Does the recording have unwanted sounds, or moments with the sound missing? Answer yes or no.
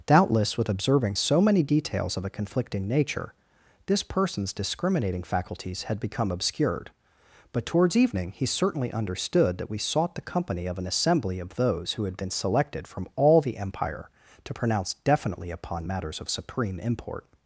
no